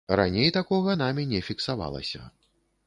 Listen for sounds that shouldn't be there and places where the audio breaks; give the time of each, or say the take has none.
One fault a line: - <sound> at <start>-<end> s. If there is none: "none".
none